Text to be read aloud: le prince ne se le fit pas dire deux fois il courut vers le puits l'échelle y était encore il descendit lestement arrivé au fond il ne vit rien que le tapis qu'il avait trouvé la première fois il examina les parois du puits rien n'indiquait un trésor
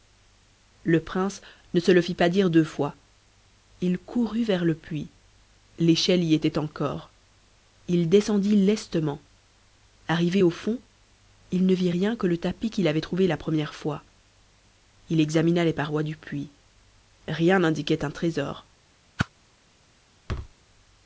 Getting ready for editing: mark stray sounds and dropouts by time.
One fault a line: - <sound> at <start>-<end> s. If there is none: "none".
- whoosh at 19.2-19.3 s
- thud at 20.3-20.5 s